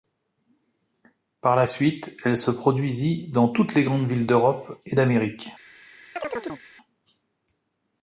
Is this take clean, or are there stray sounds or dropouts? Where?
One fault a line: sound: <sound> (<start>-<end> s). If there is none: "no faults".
sound: chirp (6.2-6.6 s)